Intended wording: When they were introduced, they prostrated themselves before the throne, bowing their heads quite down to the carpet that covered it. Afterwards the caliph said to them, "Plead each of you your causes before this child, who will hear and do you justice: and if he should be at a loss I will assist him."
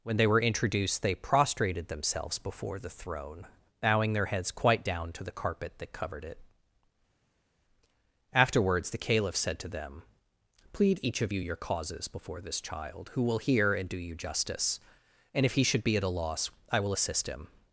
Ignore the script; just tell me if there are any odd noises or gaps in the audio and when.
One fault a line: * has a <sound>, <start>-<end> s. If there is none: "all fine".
all fine